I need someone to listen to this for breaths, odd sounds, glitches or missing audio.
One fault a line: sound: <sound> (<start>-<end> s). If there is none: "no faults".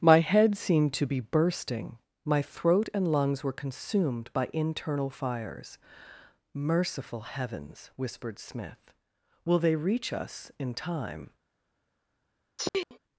sound: sneeze (12.6-13.0 s)